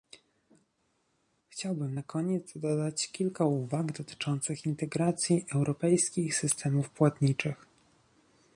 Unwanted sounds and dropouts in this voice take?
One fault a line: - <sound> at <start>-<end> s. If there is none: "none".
none